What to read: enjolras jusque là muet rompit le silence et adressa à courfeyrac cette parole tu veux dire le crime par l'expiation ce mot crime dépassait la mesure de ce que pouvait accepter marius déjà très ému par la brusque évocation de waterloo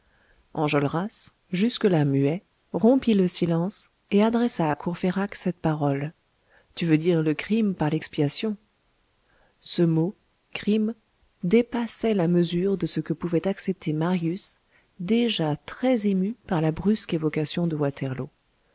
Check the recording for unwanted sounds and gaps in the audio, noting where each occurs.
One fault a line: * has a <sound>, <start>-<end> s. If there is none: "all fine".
all fine